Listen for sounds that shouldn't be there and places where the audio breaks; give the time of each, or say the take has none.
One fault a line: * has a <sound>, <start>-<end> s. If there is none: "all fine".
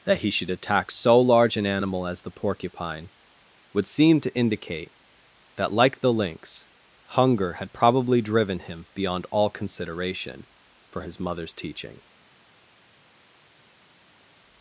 all fine